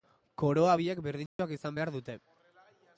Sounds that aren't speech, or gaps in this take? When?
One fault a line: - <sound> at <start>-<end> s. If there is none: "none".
- dropout at 1.3-1.4 s